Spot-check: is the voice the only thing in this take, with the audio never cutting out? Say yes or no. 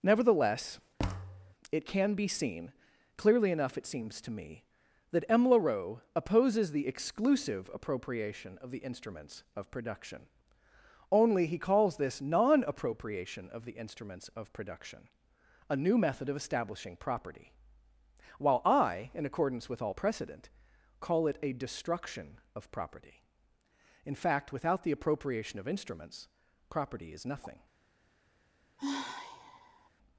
no